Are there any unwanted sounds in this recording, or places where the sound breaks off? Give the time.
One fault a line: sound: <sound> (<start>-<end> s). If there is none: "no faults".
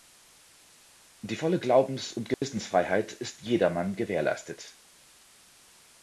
sound: dropout (2.3-2.4 s)